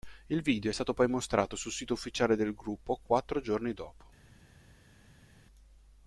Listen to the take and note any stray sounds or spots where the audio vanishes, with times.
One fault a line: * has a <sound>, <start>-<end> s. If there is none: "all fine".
all fine